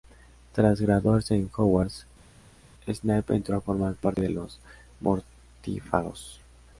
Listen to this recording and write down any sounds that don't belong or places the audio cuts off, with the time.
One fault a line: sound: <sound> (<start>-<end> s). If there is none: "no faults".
no faults